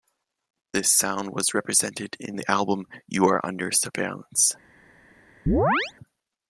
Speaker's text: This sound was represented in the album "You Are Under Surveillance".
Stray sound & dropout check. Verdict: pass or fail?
fail